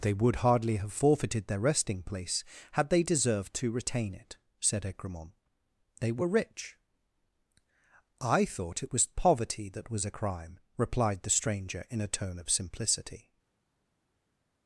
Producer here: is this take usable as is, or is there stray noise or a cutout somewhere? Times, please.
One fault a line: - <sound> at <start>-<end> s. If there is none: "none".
none